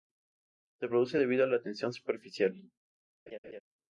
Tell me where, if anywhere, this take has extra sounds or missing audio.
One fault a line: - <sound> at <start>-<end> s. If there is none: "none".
- laugh at 3.3-3.6 s